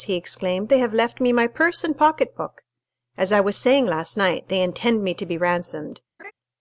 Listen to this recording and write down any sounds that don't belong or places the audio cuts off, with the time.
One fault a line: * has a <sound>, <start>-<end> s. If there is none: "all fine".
* has a laugh, 6.2-6.3 s